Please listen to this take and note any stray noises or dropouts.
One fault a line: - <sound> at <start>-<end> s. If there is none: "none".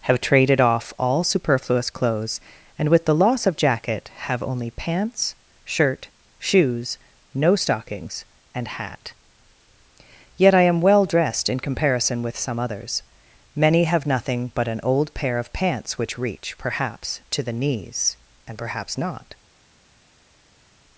none